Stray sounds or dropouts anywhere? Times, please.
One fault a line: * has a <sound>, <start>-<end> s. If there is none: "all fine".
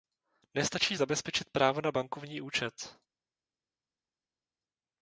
all fine